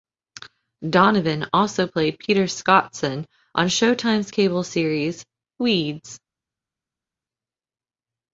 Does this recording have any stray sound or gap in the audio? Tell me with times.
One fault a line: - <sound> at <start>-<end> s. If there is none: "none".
none